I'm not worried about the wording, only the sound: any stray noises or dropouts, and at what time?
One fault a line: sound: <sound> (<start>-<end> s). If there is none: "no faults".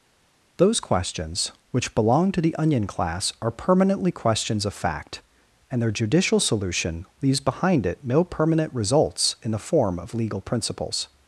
no faults